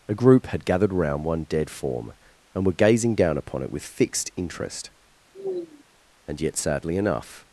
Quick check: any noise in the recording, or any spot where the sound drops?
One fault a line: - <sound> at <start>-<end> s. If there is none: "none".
- sigh at 5.3-5.8 s